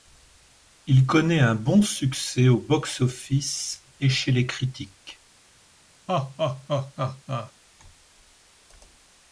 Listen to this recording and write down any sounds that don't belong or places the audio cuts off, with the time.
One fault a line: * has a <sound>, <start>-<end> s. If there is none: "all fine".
* has a laugh, 6.1-7.5 s